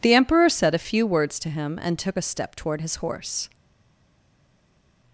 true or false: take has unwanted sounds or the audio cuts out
false